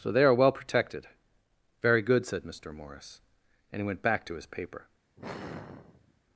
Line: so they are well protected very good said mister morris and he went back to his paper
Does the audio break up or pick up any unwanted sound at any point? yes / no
yes